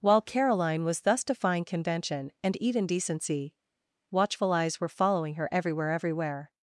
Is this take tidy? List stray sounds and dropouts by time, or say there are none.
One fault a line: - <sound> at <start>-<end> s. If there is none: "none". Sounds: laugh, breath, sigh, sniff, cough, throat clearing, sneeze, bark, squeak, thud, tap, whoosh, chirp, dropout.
none